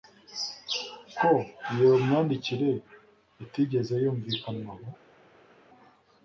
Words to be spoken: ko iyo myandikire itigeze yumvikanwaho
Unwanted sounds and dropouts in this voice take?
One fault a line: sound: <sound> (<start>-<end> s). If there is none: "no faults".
no faults